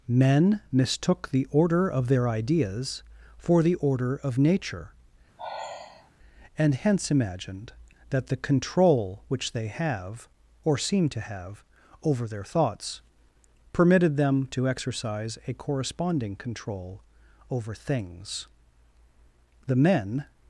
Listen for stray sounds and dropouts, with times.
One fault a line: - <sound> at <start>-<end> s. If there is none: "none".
- sigh at 5.4-6.1 s